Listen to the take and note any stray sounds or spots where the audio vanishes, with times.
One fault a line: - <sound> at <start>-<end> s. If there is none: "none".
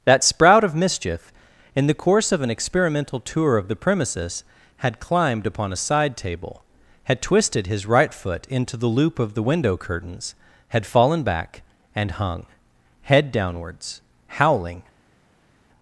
none